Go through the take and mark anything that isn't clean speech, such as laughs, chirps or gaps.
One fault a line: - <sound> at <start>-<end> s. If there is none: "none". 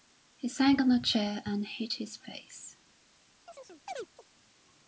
- chirp at 3.5-4.3 s